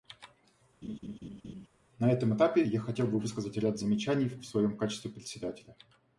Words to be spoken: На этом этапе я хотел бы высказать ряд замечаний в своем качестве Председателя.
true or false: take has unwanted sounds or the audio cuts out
true